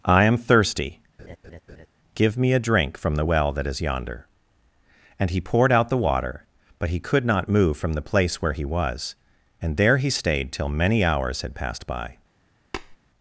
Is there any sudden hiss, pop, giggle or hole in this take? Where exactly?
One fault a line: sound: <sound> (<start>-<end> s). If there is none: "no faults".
sound: laugh (1.2-1.9 s)
sound: tap (12.7-13.0 s)